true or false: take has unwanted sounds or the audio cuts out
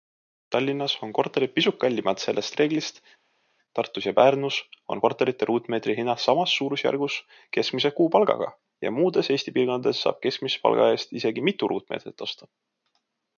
false